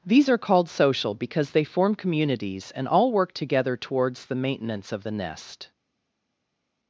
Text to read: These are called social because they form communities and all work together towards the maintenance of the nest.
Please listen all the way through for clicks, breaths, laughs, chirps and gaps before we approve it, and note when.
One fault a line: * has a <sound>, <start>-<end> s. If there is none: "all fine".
all fine